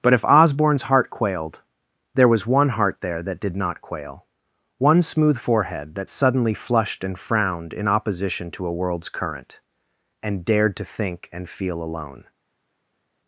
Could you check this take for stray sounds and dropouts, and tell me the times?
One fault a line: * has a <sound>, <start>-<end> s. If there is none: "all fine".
all fine